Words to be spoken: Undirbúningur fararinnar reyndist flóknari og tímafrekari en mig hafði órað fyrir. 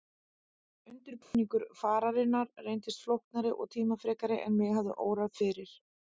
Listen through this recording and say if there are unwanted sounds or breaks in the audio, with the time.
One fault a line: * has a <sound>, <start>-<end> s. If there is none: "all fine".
* has a dropout, 1.2-1.3 s